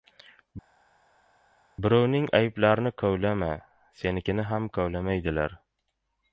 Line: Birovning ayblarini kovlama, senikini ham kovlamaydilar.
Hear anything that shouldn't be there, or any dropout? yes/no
no